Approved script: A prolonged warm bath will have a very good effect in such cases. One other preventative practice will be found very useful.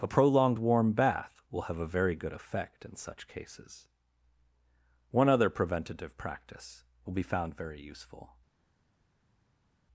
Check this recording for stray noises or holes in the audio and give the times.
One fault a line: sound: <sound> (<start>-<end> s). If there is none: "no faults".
no faults